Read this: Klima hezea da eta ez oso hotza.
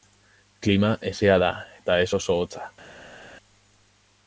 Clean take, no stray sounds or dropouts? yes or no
yes